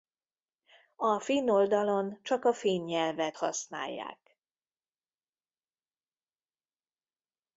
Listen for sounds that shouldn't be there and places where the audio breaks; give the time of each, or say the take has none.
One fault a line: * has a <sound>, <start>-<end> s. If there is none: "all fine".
all fine